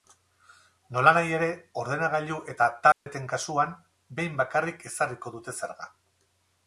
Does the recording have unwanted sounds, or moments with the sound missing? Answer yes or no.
yes